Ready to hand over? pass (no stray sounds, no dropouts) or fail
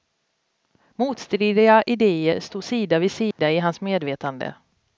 fail